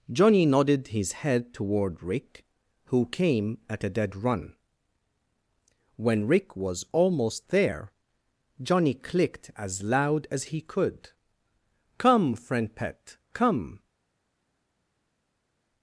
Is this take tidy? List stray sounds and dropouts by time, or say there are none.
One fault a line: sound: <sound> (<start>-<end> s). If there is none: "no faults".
no faults